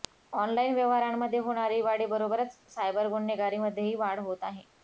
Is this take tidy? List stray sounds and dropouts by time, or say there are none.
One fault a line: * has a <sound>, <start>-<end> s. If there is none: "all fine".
all fine